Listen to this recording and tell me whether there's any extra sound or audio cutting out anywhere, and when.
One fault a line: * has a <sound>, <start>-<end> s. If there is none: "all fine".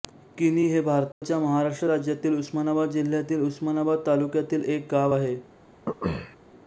* has a dropout, 1.1-1.2 s
* has a throat clearing, 5.9-6.4 s